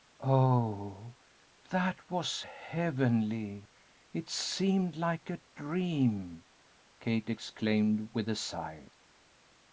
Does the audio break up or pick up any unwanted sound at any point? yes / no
no